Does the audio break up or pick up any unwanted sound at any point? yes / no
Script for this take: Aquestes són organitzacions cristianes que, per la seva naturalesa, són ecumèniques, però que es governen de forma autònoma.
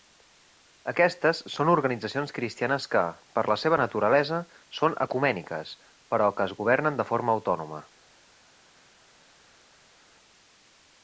no